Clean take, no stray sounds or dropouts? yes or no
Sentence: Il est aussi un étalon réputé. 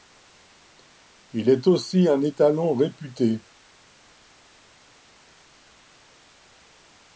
yes